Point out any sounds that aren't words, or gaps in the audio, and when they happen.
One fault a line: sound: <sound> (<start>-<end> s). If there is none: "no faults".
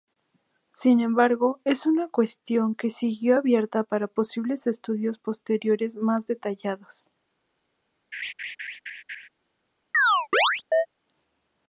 sound: laugh (8.1-9.3 s)
sound: chirp (9.9-10.9 s)